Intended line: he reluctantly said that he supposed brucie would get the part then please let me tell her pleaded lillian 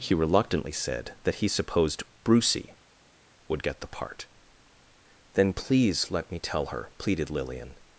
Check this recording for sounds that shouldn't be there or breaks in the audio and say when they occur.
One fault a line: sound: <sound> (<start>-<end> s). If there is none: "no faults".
no faults